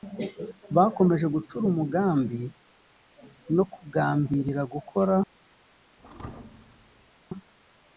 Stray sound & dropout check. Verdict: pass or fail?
fail